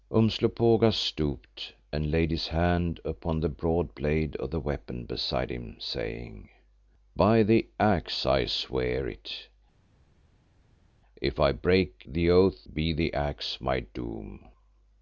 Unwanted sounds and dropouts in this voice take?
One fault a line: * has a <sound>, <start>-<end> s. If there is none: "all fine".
all fine